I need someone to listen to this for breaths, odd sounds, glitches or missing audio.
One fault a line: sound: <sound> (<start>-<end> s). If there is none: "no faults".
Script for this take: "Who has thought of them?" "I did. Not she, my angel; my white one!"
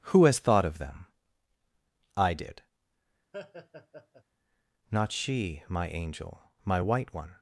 sound: laugh (3.3-4.2 s)